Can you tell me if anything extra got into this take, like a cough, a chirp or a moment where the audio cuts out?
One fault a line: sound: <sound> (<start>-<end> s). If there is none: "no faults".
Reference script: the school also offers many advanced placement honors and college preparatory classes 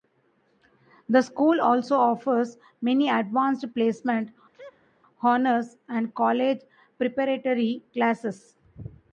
sound: sneeze (4.5-5.0 s)